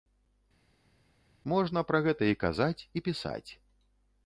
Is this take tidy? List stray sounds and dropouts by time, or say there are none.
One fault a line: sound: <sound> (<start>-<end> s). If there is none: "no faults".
no faults